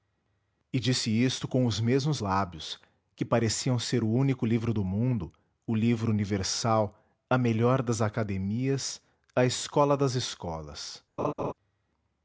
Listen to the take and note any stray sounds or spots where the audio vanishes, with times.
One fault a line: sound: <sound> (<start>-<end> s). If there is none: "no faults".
sound: laugh (11.2-11.5 s)